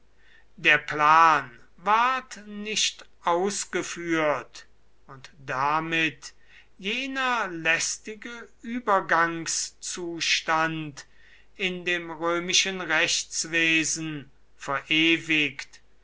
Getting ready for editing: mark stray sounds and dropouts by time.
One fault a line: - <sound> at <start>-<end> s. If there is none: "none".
none